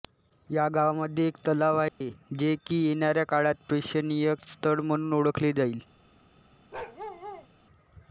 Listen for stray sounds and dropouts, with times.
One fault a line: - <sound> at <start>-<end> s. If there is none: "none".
- dropout at 1.9-2.0 s
- bark at 6.7-7.5 s